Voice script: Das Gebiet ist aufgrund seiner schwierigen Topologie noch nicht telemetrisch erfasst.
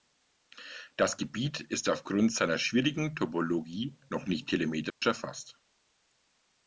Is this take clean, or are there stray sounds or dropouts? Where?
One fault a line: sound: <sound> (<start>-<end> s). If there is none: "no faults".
sound: dropout (4.9-5.0 s)